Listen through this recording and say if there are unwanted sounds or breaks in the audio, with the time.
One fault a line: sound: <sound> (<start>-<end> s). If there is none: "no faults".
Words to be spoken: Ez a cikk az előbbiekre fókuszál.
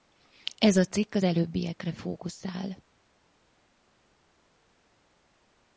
no faults